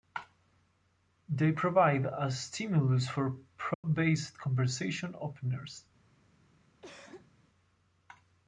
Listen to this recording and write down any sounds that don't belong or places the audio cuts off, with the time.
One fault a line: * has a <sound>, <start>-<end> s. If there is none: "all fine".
* has a dropout, 3.7-3.8 s
* has a cough, 6.8-7.3 s